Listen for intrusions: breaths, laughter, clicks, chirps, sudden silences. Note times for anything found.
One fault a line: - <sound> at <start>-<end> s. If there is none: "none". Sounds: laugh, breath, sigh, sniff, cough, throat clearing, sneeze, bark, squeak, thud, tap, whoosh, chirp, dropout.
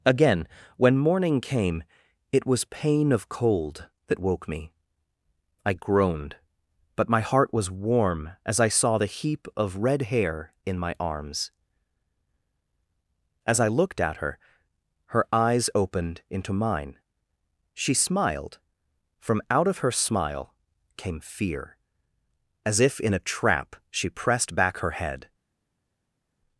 none